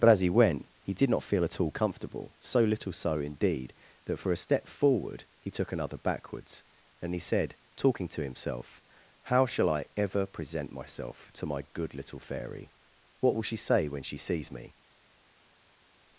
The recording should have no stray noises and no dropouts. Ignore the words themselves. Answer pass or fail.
pass